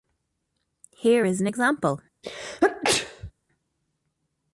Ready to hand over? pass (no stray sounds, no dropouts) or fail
fail